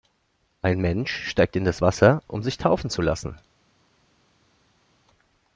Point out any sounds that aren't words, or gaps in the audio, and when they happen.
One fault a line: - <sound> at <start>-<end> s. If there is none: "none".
none